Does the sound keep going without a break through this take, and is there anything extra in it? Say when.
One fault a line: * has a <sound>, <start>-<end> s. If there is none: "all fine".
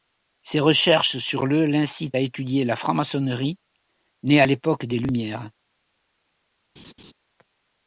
* has a laugh, 6.8-7.1 s